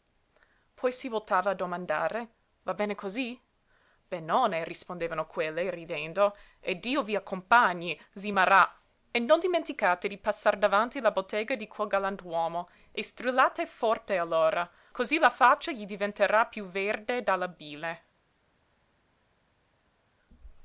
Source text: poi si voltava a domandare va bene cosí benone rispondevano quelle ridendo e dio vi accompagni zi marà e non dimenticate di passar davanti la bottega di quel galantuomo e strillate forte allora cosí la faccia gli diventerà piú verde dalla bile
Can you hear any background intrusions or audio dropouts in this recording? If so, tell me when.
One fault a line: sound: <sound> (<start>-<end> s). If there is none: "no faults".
no faults